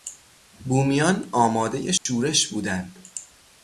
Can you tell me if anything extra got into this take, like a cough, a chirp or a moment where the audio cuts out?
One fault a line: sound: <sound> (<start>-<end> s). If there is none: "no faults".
sound: dropout (2.0-2.1 s)